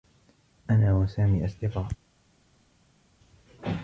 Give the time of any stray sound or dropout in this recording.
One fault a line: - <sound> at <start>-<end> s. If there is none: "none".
none